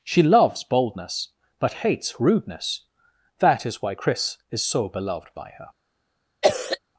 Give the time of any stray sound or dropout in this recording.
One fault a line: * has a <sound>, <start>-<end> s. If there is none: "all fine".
* has a cough, 6.4-6.8 s